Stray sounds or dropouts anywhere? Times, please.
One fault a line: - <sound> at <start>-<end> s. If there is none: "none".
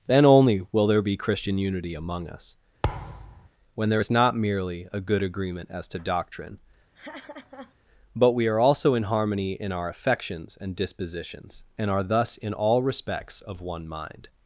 - thud at 2.8-3.5 s
- laugh at 6.9-7.8 s